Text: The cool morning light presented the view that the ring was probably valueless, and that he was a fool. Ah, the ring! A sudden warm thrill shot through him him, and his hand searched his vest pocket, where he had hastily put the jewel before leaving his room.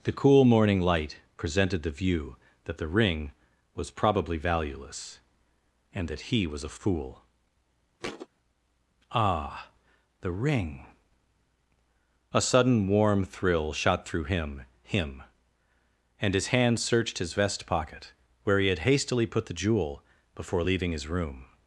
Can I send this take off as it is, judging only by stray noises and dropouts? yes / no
no